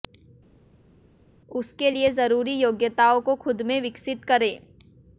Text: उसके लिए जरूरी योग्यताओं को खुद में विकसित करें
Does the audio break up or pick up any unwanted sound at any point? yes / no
no